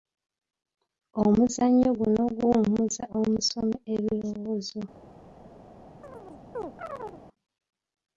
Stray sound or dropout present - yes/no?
yes